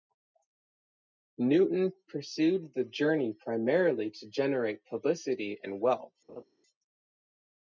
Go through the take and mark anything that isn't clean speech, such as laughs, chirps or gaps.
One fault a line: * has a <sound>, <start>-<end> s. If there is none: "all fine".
* has a laugh, 6.3-6.4 s